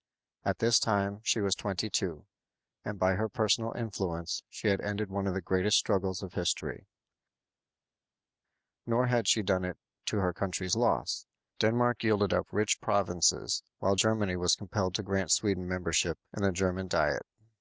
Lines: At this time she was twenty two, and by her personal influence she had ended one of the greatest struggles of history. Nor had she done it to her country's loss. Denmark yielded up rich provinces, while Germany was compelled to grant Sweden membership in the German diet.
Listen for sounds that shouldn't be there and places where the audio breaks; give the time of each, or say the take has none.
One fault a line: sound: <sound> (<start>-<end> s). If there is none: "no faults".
no faults